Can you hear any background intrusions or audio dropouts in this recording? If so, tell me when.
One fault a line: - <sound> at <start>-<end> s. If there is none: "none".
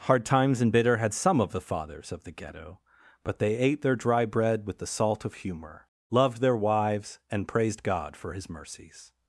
none